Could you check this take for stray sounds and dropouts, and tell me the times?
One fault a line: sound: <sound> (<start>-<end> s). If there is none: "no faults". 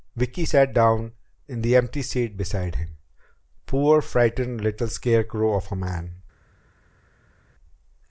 no faults